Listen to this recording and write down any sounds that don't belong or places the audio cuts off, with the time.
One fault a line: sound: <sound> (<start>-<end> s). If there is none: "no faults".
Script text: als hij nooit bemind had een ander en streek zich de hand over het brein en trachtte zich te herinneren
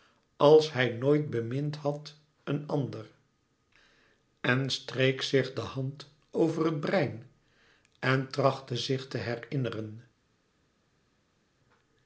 no faults